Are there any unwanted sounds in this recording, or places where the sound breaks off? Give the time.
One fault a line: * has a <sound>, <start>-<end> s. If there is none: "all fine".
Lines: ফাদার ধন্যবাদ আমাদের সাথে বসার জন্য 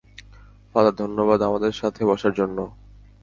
all fine